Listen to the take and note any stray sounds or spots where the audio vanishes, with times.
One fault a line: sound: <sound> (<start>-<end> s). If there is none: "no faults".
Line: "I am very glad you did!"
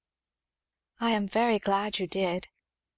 no faults